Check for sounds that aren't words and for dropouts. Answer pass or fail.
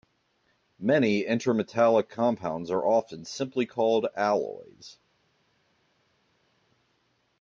pass